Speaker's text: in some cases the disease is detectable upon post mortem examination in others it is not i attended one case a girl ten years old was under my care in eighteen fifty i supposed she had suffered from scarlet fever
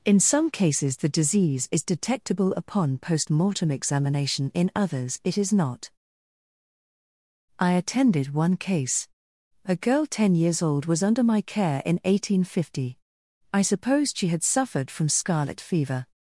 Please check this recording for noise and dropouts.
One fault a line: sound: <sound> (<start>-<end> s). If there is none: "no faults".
no faults